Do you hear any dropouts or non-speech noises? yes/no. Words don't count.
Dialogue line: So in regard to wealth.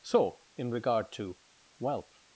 no